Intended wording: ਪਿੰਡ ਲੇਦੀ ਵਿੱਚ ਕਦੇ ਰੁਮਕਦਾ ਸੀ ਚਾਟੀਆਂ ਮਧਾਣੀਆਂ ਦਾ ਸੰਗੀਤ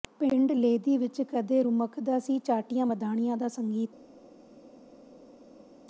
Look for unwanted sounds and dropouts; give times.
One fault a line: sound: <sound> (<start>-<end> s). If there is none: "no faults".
no faults